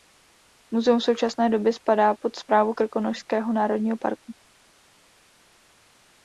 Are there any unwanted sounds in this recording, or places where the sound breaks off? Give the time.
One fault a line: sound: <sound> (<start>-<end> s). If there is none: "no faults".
no faults